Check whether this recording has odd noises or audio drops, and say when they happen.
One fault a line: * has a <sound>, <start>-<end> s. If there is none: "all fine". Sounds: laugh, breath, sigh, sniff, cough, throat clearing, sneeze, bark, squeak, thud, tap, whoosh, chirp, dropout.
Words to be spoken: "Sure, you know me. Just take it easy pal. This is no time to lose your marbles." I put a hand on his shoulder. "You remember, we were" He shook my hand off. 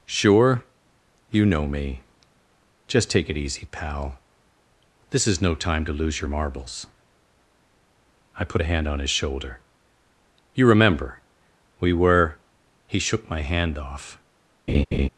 * has a laugh, 14.7-15.1 s